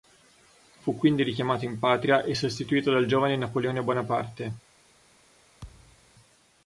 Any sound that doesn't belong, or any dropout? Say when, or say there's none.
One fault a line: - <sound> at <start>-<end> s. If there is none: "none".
- thud at 5.6-6.1 s